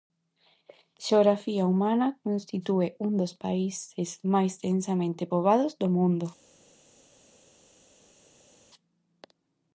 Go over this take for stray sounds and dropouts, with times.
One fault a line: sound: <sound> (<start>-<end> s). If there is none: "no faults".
no faults